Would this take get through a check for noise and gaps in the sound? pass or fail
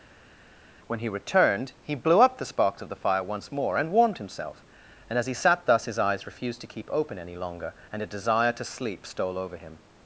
pass